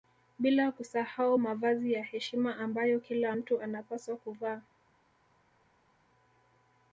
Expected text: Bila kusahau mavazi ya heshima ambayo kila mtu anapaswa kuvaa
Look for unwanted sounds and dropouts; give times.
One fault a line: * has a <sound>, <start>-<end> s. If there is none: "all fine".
all fine